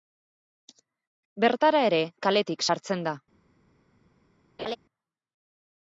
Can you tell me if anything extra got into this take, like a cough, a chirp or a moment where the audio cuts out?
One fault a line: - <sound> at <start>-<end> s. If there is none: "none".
- laugh at 4.6-4.8 s